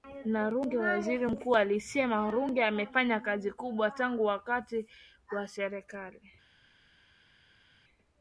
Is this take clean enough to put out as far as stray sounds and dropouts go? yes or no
yes